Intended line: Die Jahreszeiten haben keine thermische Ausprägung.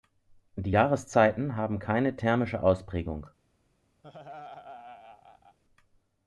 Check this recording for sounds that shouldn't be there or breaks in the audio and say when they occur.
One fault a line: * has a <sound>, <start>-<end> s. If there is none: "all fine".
* has a laugh, 4.0-5.6 s